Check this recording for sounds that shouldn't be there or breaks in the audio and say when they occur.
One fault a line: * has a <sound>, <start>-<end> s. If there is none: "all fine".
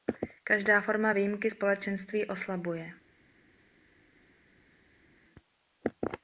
all fine